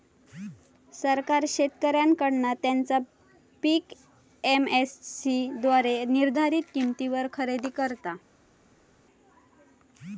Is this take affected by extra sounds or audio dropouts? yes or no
no